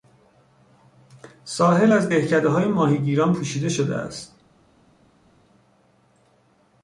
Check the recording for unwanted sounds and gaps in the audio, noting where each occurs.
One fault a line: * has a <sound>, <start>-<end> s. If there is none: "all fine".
all fine